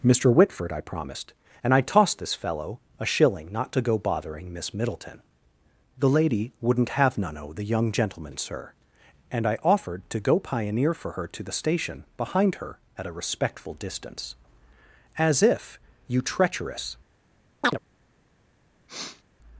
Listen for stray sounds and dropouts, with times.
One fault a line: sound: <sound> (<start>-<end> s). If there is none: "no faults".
sound: chirp (17.6-17.8 s)
sound: sniff (18.9-19.2 s)